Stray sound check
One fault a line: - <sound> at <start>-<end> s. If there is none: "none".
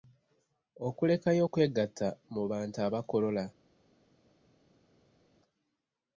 none